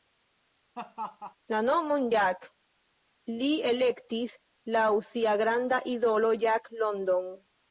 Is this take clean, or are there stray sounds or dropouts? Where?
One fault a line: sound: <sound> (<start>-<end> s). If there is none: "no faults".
sound: laugh (0.8-1.4 s)